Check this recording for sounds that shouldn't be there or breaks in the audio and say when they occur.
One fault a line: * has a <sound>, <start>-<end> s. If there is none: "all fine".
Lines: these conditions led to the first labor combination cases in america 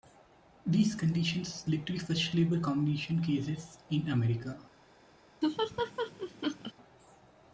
* has a laugh, 5.4-6.7 s